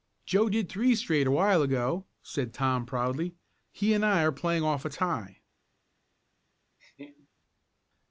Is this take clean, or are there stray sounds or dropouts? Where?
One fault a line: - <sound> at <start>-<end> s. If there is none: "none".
- laugh at 6.8-7.3 s